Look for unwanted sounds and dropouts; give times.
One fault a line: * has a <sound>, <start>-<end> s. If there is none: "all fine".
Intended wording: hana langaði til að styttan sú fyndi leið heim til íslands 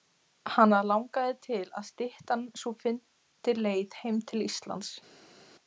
all fine